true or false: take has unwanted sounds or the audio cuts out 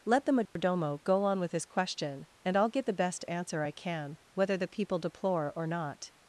true